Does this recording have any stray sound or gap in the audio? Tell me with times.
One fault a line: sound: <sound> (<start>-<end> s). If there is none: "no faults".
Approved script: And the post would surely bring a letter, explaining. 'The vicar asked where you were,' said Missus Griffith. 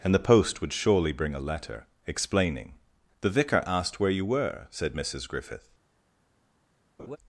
sound: laugh (7.0-7.2 s)